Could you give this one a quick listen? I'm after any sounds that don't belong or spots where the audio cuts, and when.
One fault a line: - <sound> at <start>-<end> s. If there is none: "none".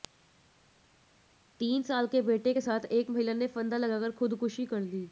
none